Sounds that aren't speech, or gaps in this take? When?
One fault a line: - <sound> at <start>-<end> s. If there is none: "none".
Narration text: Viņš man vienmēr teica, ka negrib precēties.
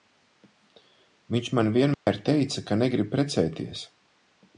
- dropout at 1.9-2.1 s